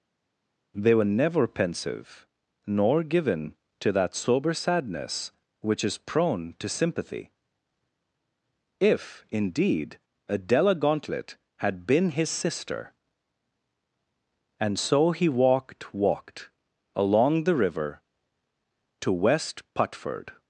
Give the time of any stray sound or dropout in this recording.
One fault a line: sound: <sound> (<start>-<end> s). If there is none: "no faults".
no faults